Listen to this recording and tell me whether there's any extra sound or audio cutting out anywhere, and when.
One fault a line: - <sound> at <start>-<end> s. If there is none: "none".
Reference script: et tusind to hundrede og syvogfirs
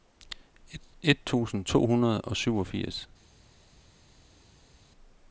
none